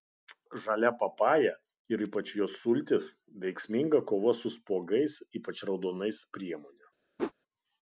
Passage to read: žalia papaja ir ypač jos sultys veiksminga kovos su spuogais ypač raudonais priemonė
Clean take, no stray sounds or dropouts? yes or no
no